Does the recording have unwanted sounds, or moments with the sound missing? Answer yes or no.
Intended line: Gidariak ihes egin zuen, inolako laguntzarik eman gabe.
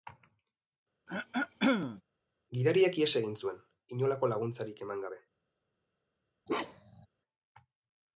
yes